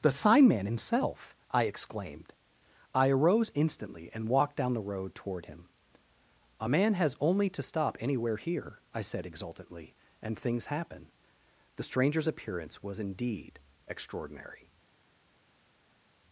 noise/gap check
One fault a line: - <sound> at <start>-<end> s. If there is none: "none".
none